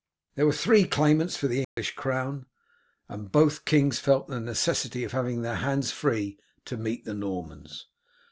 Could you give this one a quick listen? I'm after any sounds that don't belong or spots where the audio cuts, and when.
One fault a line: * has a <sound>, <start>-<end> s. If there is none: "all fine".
* has a dropout, 1.6-1.8 s